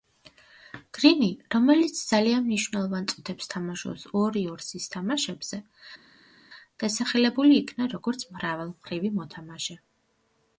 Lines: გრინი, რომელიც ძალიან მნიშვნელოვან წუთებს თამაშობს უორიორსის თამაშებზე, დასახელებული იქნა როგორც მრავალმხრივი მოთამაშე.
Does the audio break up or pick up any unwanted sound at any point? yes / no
no